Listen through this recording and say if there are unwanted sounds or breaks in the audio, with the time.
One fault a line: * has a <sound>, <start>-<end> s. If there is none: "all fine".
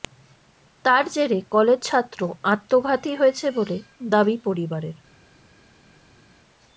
all fine